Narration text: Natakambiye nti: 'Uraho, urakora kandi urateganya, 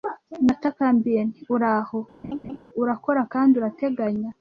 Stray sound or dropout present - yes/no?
yes